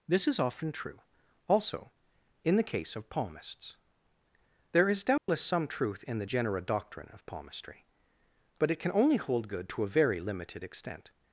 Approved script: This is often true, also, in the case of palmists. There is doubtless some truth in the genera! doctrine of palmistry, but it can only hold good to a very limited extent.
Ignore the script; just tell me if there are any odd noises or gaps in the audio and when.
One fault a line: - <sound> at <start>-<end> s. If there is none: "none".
- dropout at 5.2-5.3 s